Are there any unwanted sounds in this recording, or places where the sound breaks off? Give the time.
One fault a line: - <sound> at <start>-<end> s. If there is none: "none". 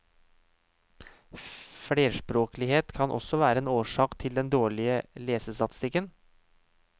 none